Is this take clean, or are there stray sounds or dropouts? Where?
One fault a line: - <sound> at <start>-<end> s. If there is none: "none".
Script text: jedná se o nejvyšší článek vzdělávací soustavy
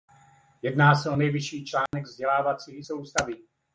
- dropout at 1.9-1.9 s